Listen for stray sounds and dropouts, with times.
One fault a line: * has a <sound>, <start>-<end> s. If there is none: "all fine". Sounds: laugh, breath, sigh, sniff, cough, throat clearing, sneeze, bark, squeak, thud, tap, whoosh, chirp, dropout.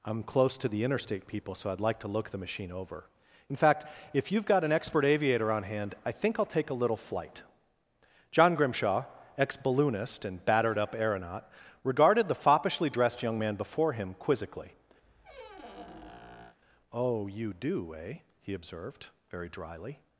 * has a squeak, 15.0-16.6 s